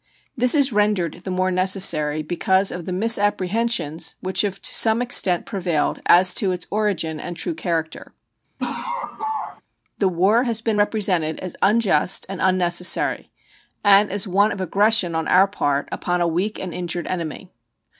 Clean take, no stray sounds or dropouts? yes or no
no